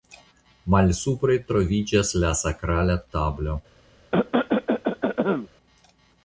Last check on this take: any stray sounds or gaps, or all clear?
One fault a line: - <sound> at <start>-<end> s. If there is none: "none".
- cough at 4.1-5.5 s